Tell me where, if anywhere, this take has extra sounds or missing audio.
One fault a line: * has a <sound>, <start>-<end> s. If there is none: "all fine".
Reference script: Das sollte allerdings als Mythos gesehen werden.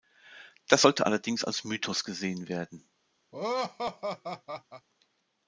* has a laugh, 3.3-4.9 s